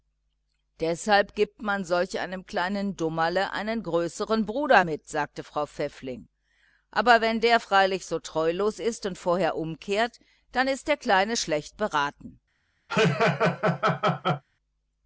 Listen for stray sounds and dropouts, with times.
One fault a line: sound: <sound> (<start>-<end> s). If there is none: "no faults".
sound: laugh (12.9-14.4 s)